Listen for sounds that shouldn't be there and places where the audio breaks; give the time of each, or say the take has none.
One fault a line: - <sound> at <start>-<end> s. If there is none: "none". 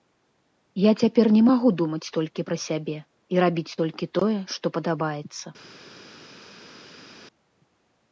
none